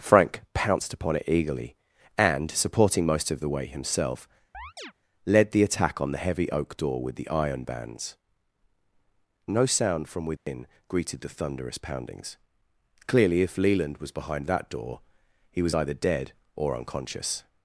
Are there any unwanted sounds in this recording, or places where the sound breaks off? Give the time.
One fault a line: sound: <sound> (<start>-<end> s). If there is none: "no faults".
sound: chirp (4.5-4.9 s)
sound: dropout (10.4-10.5 s)